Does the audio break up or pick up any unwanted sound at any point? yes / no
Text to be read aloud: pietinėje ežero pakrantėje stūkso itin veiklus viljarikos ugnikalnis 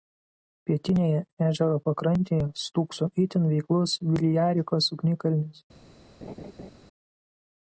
yes